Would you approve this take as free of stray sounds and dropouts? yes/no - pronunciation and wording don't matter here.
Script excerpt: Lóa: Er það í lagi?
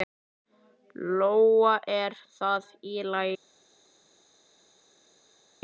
yes